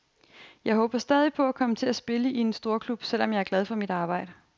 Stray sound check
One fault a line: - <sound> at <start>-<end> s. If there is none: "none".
none